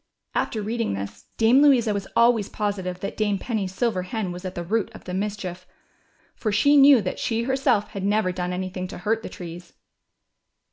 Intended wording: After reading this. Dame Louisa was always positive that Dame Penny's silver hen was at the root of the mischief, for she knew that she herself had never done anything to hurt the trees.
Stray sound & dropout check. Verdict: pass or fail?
pass